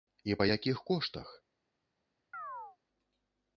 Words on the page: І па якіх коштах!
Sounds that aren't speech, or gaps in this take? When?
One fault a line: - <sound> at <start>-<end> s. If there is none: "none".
- chirp at 2.3-2.8 s